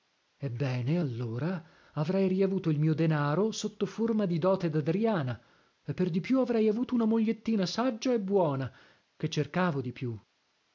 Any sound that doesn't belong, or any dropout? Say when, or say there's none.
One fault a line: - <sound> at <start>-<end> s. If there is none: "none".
none